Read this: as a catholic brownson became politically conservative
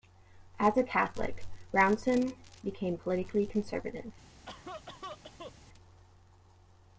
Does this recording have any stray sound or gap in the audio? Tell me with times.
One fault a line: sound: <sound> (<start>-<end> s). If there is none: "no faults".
sound: cough (4.5-5.5 s)